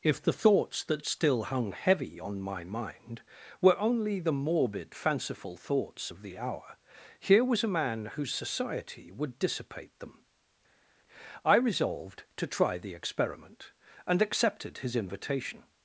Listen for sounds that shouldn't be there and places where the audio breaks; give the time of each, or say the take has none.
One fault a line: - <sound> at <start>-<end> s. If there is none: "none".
none